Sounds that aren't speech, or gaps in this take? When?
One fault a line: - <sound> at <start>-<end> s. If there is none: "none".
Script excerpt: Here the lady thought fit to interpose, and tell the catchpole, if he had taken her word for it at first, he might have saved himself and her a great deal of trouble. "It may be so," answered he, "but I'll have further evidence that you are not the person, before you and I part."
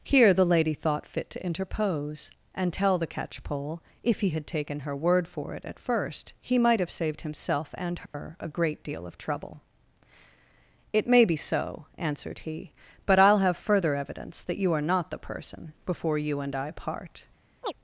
- dropout at 8.1-8.1 s
- chirp at 17.6-17.7 s